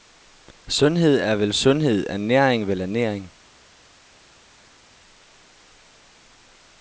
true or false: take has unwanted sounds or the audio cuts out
false